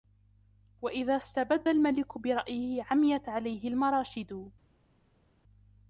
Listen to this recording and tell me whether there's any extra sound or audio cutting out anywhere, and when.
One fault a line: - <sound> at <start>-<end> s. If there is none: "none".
none